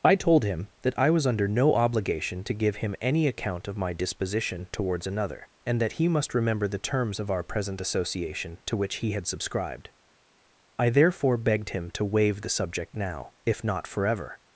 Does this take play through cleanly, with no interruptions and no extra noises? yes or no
yes